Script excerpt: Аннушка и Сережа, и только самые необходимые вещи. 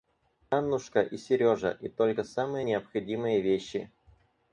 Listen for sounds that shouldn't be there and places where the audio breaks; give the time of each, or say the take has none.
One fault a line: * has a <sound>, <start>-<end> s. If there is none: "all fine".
all fine